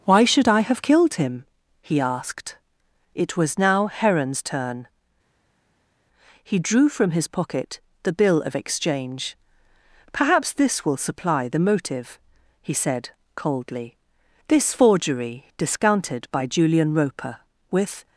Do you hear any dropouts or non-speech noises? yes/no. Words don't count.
no